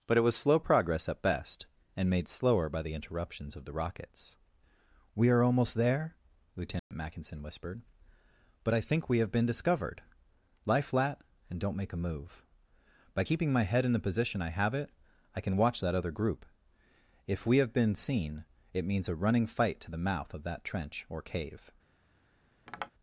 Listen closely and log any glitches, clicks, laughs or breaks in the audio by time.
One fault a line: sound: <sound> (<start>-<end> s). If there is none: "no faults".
sound: dropout (6.8-6.9 s)
sound: tap (22.7-22.9 s)